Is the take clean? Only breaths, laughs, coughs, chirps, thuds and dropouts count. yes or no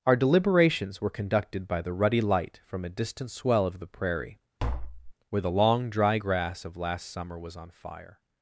no